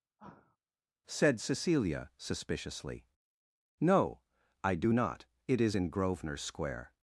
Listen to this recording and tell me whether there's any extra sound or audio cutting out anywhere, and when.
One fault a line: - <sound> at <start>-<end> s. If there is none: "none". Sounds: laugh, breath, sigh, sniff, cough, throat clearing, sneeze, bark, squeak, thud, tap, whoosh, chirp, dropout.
- sigh at 0.2-0.6 s